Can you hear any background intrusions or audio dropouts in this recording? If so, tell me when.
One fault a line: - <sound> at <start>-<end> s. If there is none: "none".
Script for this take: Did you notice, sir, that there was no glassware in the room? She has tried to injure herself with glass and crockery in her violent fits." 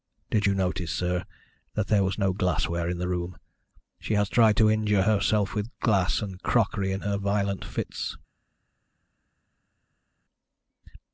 none